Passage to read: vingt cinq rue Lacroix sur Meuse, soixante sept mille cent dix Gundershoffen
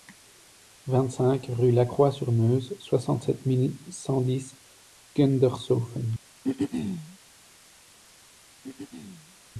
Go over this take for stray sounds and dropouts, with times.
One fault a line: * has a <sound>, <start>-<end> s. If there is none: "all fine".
* has a throat clearing, 6.4-7.2 s
* has a throat clearing, 8.6-9.4 s